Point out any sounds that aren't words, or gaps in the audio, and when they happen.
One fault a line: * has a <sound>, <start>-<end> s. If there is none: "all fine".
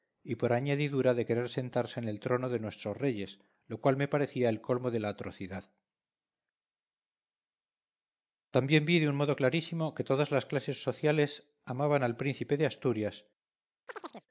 * has a chirp, 13.9-14.3 s